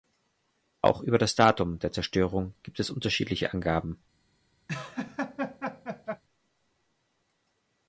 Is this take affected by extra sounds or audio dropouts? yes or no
yes